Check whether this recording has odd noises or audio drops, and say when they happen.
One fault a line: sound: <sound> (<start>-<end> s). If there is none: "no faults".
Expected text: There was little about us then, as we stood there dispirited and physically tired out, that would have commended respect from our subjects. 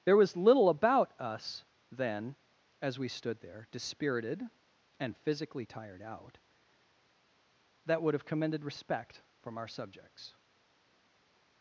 no faults